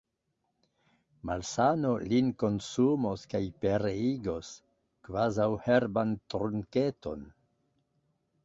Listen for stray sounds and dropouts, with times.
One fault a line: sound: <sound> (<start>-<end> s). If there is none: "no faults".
no faults